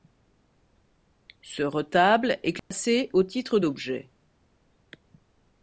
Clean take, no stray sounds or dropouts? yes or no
no